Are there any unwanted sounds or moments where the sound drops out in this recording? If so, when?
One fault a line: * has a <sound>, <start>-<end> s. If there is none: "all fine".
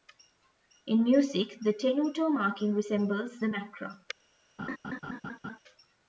* has a laugh, 4.6-5.6 s